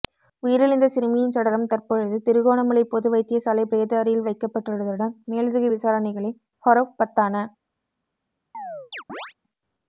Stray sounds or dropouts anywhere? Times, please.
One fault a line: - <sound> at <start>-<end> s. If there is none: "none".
- chirp at 8.5-9.3 s